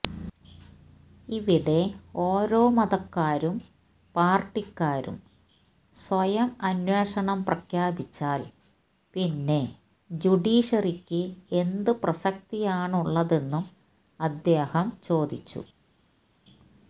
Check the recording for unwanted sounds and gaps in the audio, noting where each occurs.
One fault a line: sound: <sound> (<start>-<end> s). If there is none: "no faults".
no faults